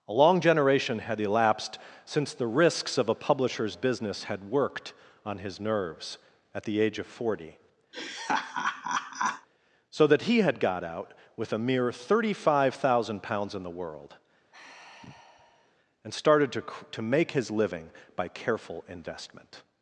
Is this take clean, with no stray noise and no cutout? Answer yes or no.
no